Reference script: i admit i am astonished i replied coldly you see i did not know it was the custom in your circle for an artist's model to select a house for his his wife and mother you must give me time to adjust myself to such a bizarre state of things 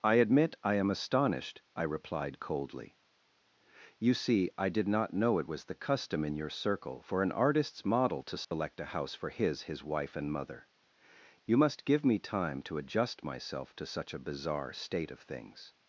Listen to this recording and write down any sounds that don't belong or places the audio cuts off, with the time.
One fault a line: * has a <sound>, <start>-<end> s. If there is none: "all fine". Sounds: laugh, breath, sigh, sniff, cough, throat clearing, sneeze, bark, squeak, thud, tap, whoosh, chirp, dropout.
* has a dropout, 8.4-8.5 s